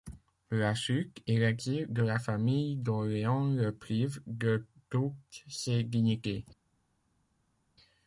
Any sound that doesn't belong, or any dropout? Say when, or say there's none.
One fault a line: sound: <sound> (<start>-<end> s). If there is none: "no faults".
no faults